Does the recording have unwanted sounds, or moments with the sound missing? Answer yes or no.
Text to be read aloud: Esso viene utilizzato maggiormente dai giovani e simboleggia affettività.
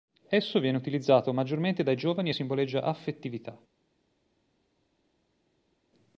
no